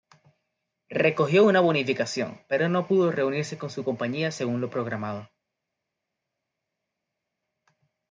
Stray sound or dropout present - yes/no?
no